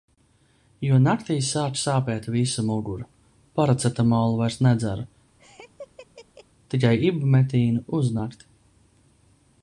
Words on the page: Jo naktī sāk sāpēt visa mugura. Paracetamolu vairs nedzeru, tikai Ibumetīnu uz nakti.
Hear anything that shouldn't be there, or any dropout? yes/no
yes